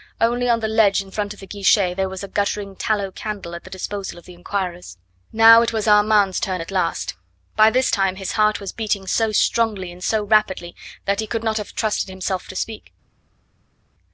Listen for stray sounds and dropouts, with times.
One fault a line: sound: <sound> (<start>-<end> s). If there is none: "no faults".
no faults